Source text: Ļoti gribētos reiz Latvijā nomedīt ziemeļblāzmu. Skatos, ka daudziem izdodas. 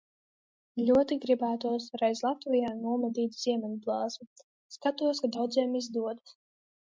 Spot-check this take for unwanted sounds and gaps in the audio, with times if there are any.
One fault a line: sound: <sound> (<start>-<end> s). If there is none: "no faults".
no faults